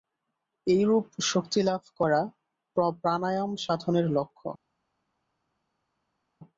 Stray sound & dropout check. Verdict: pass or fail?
pass